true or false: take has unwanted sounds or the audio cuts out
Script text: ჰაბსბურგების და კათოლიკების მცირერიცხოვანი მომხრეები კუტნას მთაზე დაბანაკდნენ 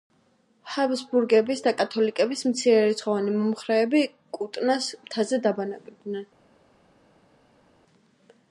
false